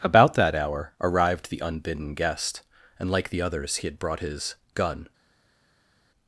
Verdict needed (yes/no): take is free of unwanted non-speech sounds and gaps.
yes